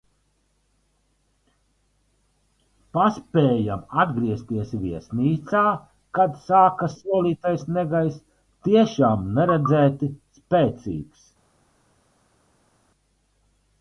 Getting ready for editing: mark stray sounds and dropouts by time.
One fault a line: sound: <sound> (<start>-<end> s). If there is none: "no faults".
no faults